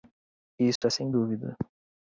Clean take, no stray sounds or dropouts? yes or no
no